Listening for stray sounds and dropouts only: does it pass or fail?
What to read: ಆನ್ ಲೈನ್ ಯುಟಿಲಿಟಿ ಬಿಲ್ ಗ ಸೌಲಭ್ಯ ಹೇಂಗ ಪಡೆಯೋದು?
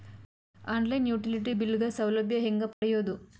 fail